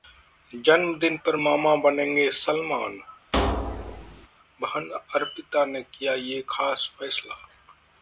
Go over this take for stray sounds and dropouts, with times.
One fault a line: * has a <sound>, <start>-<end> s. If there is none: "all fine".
* has a thud, 3.3-4.3 s